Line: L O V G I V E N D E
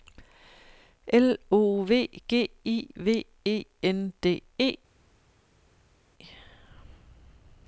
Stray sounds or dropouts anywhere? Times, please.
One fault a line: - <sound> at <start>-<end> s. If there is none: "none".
none